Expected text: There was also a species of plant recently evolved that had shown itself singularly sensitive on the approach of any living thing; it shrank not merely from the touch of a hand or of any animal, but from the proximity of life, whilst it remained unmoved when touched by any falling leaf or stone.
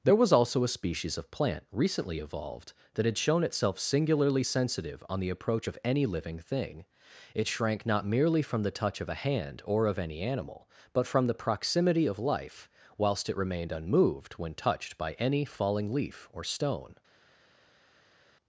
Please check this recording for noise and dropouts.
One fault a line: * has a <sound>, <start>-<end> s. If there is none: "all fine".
all fine